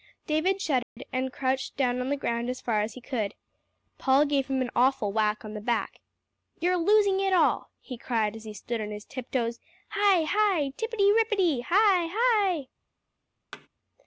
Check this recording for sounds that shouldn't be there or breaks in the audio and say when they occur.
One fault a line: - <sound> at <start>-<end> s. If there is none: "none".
- dropout at 0.8-1.0 s
- thud at 13.5-13.7 s